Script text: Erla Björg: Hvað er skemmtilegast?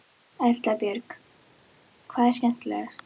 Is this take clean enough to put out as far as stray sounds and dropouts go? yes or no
yes